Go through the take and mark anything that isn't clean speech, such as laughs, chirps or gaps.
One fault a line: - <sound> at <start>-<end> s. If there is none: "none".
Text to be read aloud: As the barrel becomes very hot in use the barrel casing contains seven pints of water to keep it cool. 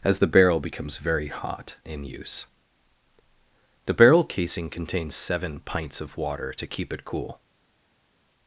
none